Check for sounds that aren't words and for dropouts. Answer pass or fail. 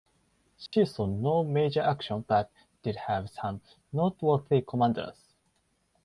fail